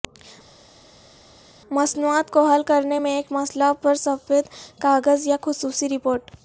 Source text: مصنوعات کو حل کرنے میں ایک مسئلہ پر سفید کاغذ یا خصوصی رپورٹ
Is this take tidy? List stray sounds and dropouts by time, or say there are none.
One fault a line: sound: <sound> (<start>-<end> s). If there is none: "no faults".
no faults